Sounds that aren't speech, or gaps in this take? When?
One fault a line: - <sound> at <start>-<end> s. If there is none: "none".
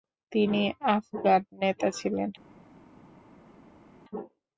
none